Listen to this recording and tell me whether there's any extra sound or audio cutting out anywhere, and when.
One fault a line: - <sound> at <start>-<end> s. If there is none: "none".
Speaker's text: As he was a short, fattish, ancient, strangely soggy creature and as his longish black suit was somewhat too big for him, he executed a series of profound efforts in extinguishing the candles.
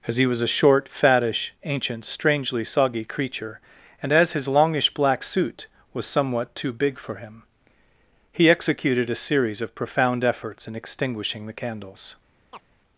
- chirp at 12.5-12.6 s